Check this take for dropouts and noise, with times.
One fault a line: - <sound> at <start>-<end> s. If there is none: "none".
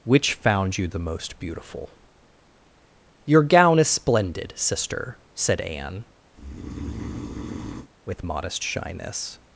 - breath at 6.3-7.9 s